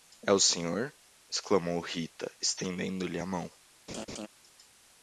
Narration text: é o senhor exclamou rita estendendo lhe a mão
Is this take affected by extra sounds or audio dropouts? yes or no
yes